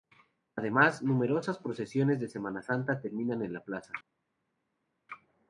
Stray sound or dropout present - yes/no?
no